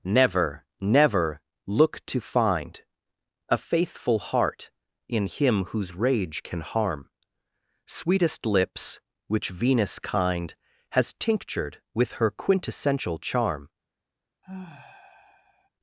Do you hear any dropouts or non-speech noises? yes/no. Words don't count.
yes